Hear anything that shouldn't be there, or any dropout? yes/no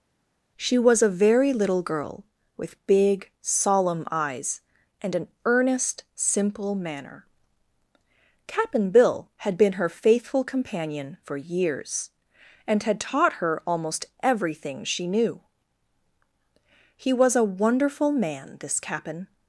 no